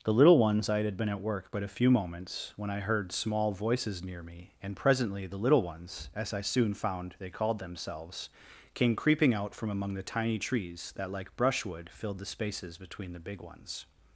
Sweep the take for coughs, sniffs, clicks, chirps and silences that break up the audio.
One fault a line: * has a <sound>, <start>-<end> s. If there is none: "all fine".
all fine